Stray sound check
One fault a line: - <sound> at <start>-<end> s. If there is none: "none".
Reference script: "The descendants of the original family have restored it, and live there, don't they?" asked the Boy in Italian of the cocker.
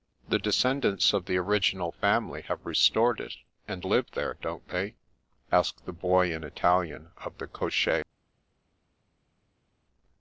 none